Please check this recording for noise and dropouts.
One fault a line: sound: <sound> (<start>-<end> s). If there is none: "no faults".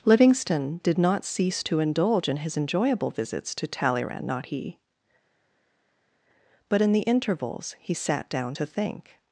no faults